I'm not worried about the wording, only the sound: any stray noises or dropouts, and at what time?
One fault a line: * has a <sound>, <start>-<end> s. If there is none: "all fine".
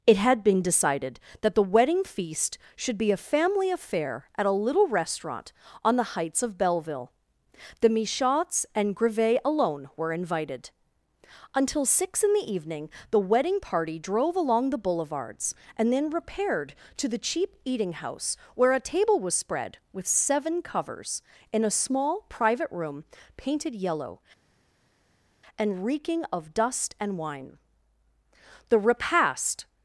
all fine